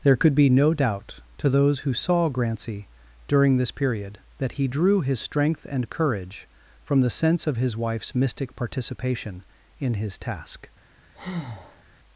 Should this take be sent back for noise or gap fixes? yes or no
yes